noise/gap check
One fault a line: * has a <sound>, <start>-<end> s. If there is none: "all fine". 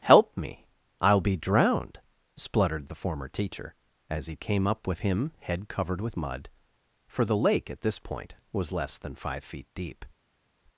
all fine